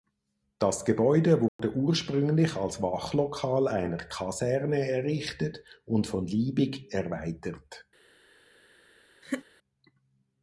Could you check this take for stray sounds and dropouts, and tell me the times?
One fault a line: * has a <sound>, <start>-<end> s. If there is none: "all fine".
* has a dropout, 1.5-1.6 s
* has a laugh, 9.2-9.5 s